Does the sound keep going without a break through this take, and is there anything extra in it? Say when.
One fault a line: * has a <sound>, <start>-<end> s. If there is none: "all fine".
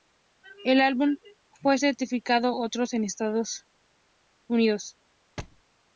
* has a thud, 5.4-5.6 s